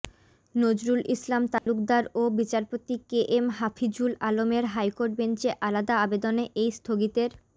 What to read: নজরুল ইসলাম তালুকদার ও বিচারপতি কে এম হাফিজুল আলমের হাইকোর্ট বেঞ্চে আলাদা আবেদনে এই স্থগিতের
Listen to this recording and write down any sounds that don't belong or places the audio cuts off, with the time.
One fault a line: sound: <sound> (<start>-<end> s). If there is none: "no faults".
sound: dropout (1.6-1.7 s)